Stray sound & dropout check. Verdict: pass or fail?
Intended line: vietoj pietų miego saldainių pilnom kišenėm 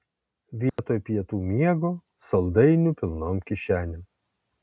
fail